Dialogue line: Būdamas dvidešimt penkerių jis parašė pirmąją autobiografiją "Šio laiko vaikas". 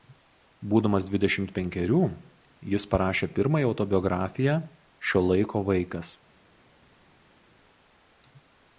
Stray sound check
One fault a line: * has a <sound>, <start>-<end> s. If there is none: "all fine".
all fine